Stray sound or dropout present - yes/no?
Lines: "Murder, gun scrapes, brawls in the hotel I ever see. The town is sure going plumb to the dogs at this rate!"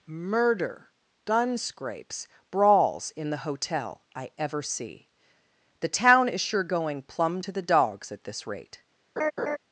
yes